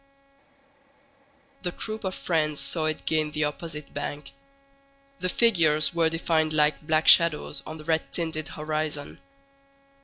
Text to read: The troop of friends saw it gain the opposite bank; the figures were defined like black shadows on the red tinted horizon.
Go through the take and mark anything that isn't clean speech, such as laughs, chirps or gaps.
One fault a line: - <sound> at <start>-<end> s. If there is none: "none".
none